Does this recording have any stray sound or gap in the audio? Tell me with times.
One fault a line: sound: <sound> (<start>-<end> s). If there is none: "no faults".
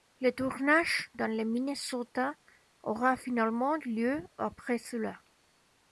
no faults